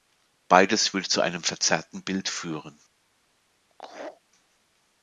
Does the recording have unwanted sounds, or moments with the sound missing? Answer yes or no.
yes